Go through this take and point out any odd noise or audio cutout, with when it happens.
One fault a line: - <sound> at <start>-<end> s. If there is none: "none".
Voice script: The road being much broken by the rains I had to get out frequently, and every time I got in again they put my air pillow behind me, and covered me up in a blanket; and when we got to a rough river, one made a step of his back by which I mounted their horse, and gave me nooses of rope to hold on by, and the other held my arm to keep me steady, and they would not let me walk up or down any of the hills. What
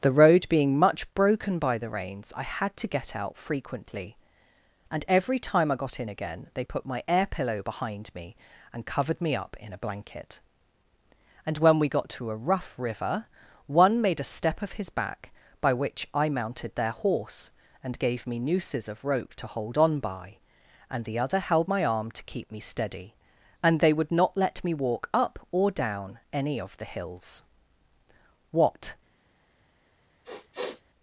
- sniff at 30.2-30.8 s